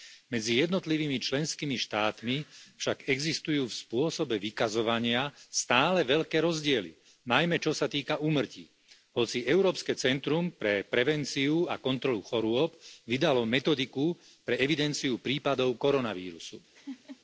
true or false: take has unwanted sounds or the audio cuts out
true